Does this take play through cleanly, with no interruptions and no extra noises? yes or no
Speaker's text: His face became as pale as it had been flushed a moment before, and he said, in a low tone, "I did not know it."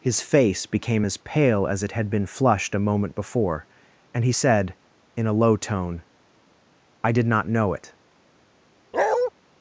no